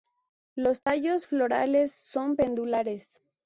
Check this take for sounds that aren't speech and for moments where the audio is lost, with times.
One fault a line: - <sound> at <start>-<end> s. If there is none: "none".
- dropout at 0.8-0.9 s